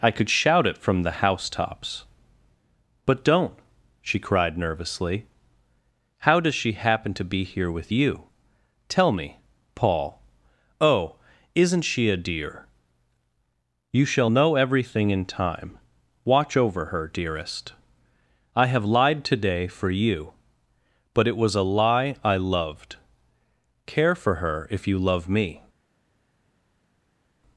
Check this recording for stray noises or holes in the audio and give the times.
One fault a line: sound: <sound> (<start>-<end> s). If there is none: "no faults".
no faults